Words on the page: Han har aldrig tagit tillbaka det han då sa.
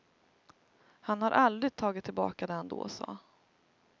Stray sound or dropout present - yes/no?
no